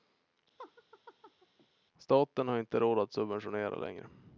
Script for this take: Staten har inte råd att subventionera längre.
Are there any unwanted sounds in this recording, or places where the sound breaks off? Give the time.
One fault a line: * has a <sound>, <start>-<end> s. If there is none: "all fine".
* has a laugh, 0.6-1.7 s